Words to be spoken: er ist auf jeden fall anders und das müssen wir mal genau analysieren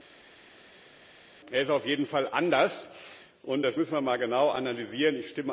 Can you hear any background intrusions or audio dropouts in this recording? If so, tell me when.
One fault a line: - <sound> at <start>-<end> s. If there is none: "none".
none